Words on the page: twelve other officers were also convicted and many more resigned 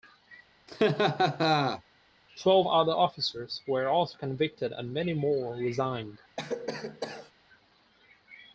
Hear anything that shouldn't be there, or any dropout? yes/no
yes